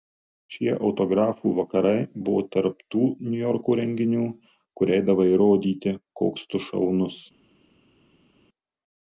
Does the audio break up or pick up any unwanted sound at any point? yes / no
no